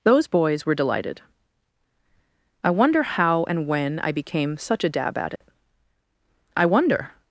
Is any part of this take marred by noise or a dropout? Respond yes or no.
yes